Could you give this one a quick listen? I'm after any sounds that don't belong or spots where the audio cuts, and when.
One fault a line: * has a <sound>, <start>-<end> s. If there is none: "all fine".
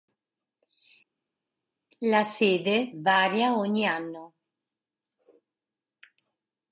all fine